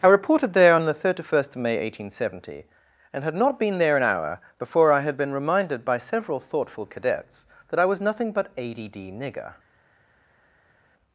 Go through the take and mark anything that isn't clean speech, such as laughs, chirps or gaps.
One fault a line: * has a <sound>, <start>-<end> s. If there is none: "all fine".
all fine